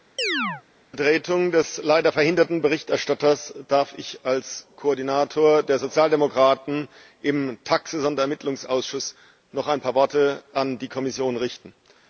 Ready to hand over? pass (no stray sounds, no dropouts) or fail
fail